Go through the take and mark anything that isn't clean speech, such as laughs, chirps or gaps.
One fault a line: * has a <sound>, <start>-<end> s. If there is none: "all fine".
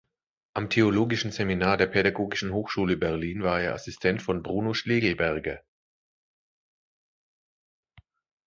all fine